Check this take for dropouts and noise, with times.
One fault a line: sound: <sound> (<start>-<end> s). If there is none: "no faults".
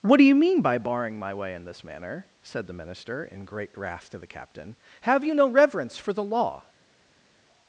no faults